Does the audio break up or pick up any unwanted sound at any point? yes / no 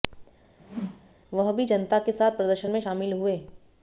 yes